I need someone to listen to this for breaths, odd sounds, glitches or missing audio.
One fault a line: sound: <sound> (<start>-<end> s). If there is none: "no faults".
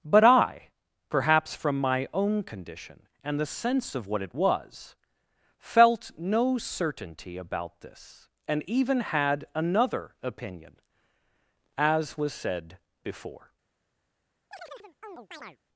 sound: chirp (14.5-15.6 s)